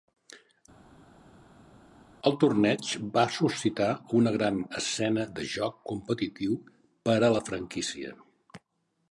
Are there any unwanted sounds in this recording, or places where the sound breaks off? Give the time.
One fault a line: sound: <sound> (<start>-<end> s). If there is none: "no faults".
no faults